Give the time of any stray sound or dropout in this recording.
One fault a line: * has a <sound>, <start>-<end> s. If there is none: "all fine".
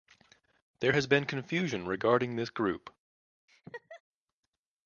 * has a laugh, 3.5-4.0 s